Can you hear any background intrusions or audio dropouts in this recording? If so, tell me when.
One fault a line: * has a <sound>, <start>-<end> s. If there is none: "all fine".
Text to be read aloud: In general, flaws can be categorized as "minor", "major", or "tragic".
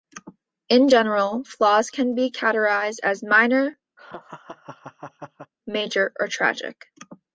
* has a laugh, 4.0-5.5 s